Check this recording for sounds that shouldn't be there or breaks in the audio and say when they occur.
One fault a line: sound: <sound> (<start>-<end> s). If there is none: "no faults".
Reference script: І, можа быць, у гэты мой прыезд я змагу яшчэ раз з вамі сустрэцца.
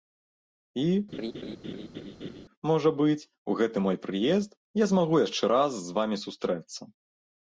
sound: laugh (1.1-2.4 s)